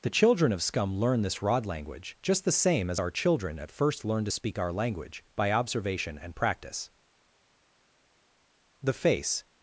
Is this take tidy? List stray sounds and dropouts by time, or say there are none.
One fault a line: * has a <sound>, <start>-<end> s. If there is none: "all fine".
all fine